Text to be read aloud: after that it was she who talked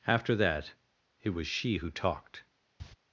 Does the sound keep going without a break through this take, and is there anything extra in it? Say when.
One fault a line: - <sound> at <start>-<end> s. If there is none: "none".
- cough at 2.8-2.9 s